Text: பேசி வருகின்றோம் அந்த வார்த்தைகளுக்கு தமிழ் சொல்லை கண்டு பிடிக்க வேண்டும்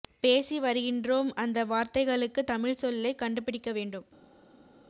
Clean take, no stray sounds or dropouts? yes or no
yes